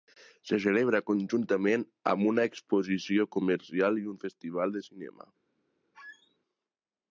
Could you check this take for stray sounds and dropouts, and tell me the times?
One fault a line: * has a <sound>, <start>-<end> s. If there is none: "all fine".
* has a squeak, 5.9-6.4 s